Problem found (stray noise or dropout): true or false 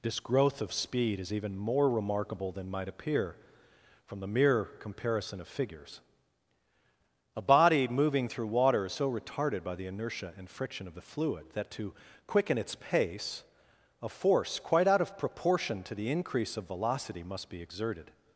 false